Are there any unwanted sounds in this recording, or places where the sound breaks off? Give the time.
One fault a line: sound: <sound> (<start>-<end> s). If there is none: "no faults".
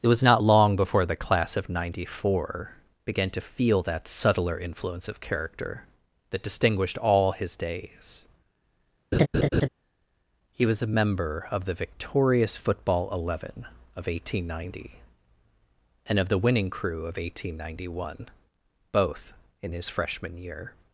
sound: laugh (9.1-9.7 s)